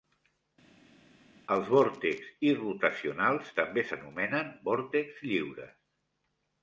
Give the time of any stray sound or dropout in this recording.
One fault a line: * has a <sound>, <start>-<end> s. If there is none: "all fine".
all fine